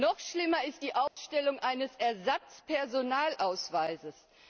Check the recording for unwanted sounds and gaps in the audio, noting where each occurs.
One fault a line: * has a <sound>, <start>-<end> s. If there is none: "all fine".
* has a dropout, 1.1-1.2 s